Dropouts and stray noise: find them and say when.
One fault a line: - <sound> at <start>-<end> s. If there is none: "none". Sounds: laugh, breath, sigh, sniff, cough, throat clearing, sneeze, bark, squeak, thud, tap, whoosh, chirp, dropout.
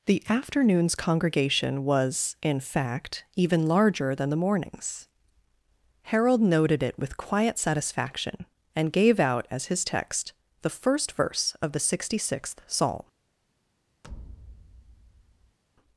- thud at 14.0-15.6 s